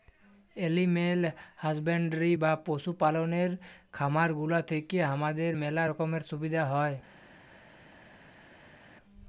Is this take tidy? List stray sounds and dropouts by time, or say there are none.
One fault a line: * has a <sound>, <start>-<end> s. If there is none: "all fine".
all fine